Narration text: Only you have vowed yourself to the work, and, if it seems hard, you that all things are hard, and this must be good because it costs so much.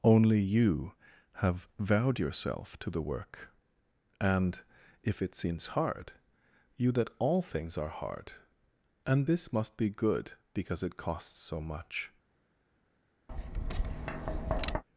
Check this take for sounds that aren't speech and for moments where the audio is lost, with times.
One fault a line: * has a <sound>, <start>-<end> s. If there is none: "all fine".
* has a tap, 13.3-14.8 s